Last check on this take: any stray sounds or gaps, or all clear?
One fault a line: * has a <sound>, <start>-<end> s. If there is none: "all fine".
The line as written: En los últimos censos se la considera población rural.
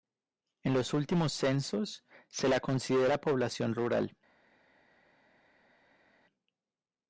all fine